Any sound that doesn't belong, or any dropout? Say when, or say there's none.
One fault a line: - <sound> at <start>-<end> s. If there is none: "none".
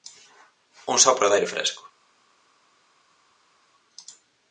none